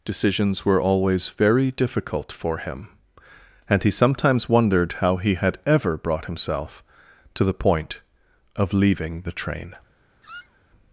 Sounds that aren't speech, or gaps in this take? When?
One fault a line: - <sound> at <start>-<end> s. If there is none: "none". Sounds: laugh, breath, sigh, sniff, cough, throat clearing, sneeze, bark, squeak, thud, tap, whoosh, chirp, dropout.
- squeak at 10.2-10.6 s